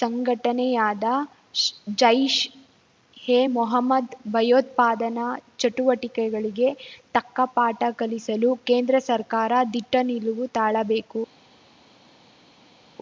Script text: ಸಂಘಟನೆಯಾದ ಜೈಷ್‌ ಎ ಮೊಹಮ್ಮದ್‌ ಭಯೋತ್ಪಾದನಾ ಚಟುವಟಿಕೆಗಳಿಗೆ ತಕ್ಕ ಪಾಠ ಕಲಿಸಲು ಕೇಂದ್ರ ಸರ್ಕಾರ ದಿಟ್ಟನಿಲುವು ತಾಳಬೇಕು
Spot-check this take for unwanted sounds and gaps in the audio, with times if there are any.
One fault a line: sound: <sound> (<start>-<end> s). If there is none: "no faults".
no faults